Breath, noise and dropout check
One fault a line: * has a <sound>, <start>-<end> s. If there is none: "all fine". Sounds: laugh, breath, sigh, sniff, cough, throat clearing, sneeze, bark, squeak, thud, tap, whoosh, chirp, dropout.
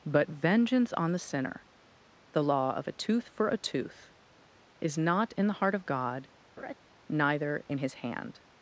* has a laugh, 6.6-6.7 s